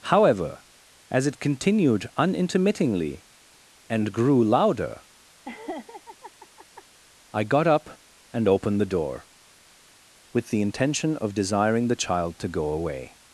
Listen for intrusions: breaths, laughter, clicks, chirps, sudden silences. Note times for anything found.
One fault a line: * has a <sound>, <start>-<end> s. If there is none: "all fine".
* has a laugh, 5.4-6.8 s